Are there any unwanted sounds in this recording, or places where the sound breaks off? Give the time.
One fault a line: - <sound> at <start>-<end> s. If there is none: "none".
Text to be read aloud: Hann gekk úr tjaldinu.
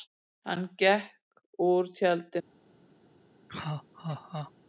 - laugh at 3.5-4.5 s